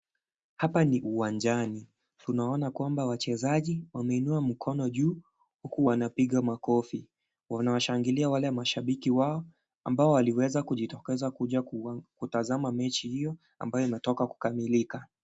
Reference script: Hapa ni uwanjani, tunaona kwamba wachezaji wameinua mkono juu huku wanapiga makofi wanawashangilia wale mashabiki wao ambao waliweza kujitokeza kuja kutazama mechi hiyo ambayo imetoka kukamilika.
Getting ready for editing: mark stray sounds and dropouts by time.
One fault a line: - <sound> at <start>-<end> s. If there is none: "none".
none